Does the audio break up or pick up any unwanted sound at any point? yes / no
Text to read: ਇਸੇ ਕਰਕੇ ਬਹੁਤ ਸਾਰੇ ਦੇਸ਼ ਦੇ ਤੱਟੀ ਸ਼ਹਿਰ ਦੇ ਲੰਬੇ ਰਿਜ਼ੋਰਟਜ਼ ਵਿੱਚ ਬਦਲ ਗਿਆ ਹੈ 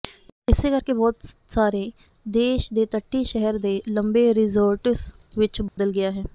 yes